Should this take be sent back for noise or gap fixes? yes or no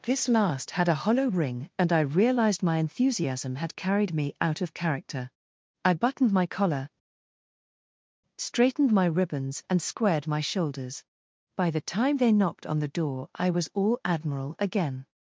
no